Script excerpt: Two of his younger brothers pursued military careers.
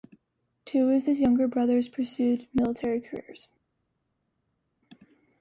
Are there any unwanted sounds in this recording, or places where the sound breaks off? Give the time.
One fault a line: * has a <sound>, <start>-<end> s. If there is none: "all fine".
all fine